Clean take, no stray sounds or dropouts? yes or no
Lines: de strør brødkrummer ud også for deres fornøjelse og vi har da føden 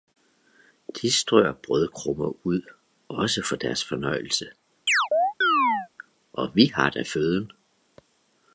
no